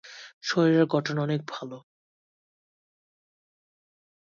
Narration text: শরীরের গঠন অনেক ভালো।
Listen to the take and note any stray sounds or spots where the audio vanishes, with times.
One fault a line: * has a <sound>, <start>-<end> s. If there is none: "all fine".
all fine